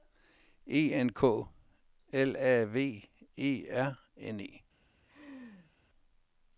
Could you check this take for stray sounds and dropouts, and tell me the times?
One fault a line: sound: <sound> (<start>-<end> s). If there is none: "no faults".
sound: laugh (5.0-5.7 s)